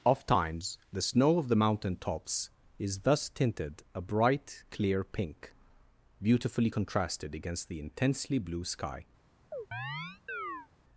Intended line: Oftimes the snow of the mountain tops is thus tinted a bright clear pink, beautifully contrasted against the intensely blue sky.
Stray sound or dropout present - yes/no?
yes